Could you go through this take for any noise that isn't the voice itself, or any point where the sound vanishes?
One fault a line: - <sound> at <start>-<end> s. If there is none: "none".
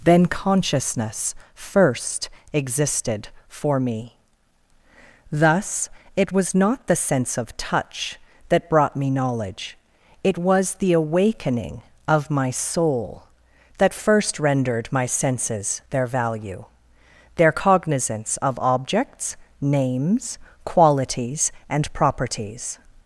none